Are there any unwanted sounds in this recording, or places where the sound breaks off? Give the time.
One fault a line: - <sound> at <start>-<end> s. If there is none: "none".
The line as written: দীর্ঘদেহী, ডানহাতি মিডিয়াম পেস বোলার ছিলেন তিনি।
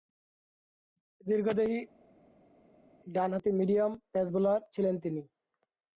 none